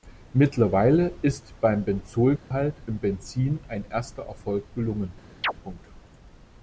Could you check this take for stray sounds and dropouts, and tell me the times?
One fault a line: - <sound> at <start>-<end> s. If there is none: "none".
- dropout at 2.4-2.5 s
- chirp at 5.4-5.5 s